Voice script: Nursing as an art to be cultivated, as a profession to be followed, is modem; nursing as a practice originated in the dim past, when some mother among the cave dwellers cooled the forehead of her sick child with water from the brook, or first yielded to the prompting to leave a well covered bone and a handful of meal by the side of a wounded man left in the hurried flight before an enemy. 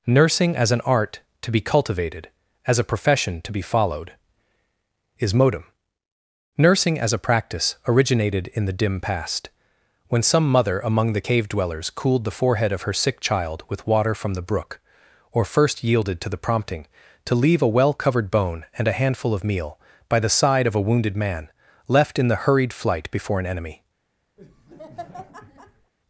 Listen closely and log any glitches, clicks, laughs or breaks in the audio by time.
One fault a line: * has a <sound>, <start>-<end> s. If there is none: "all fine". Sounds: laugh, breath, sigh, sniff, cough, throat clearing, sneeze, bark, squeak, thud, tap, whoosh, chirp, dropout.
* has a laugh, 24.4-25.9 s